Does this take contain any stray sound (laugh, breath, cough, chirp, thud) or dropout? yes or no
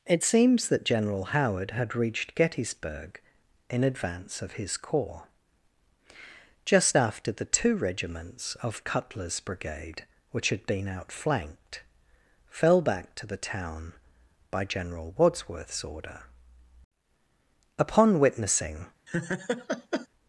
yes